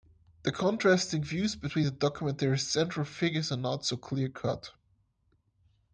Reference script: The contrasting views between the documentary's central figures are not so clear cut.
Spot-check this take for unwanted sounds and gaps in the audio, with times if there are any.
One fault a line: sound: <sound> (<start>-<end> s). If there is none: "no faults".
no faults